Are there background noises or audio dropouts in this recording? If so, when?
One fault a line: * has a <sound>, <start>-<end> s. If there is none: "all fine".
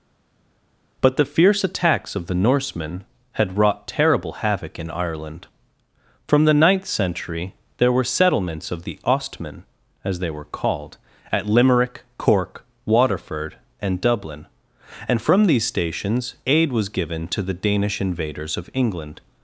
all fine